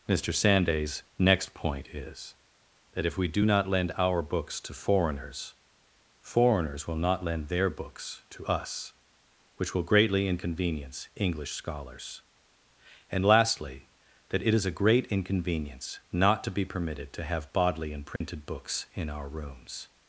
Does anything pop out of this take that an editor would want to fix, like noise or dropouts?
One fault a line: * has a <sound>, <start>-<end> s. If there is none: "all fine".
* has a dropout, 18.2-18.2 s